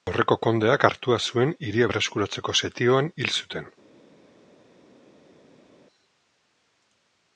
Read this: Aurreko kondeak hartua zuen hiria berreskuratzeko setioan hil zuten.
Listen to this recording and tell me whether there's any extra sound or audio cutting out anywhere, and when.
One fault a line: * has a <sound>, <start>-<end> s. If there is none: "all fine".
all fine